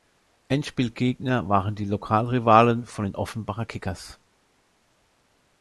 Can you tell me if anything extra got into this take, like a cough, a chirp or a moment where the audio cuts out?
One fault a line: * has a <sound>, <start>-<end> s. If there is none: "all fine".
all fine